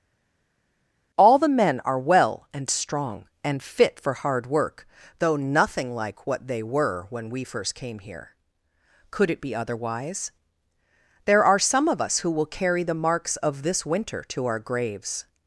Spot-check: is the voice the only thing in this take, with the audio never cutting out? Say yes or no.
yes